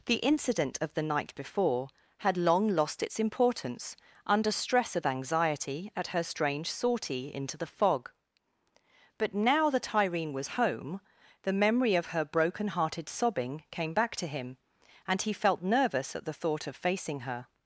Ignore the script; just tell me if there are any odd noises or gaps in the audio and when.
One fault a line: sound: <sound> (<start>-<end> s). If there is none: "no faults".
no faults